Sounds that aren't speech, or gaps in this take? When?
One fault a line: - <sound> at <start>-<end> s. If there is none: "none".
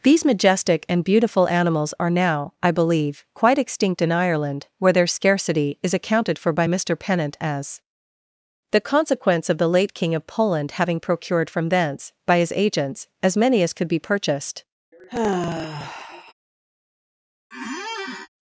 - sigh at 14.9-16.3 s
- squeak at 17.5-18.3 s